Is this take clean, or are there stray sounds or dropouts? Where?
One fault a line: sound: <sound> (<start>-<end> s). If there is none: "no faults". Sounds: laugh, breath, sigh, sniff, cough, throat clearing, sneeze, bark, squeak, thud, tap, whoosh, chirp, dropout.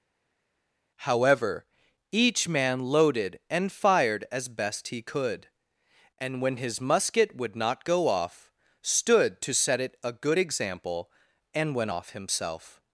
no faults